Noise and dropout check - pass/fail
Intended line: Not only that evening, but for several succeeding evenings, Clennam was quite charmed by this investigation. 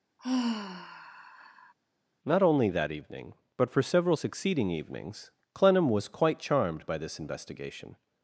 fail